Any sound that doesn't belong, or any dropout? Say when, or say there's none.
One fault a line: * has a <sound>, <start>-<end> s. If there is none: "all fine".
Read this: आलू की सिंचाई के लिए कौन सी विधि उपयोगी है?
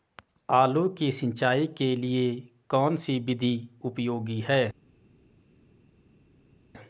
all fine